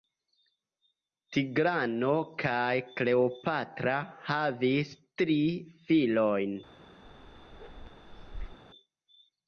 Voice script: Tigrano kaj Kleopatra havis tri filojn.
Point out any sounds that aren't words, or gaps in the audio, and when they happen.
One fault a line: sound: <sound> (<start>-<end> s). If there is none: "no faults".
sound: bark (7.0-8.6 s)